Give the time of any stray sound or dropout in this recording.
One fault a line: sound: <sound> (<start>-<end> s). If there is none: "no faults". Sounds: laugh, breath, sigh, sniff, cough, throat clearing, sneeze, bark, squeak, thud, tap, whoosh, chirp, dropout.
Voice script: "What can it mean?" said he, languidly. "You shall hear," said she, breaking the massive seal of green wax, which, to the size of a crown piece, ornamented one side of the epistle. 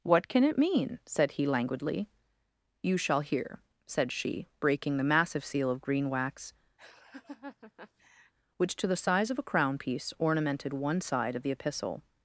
sound: laugh (6.8-8.3 s)